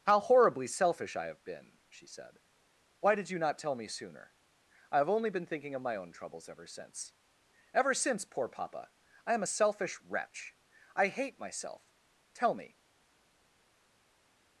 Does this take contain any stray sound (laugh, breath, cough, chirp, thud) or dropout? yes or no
no